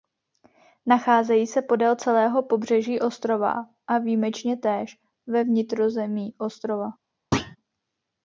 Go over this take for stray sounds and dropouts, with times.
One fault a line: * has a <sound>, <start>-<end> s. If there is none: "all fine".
* has a thud, 7.3-7.6 s